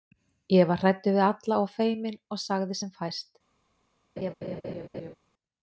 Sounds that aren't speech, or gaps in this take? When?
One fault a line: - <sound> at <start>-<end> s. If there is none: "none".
- laugh at 4.2-5.1 s